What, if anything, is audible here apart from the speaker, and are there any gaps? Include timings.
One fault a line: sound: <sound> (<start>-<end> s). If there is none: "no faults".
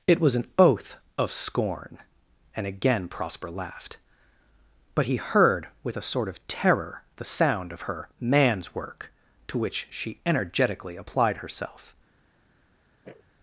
sound: sniff (13.0-13.2 s)